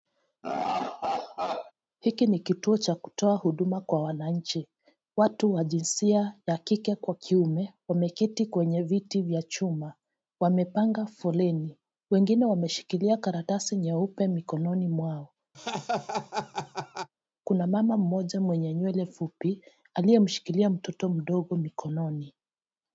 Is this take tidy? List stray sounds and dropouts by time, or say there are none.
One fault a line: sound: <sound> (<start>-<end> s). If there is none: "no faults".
sound: laugh (0.4-1.7 s)
sound: laugh (15.5-17.1 s)